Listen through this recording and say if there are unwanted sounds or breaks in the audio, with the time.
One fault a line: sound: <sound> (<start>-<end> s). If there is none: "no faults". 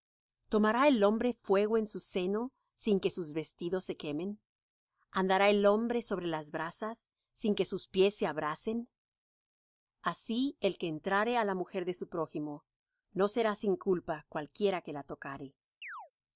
sound: chirp (15.8-16.1 s)